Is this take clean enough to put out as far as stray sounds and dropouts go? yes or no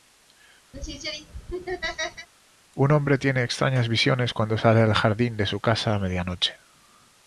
no